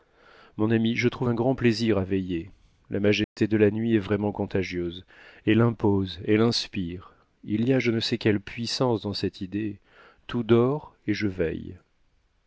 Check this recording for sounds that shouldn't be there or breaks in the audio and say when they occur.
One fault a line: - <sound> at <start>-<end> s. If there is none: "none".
- dropout at 3.2-3.4 s